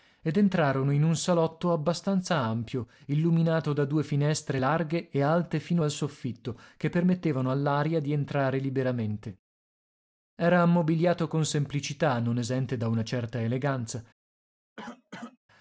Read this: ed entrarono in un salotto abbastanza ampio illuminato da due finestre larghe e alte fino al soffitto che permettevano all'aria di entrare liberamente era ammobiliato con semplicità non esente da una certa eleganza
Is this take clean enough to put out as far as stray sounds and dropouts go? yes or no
no